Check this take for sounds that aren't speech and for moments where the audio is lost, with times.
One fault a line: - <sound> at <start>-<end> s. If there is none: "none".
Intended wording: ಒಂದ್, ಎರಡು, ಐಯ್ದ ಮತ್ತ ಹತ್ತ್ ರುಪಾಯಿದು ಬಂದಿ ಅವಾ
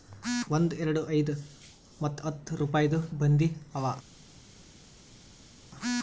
none